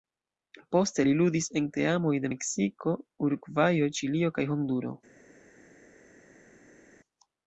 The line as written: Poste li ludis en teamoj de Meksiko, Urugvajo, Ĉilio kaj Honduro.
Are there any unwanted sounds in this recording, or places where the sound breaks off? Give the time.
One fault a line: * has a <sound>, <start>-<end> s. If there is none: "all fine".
all fine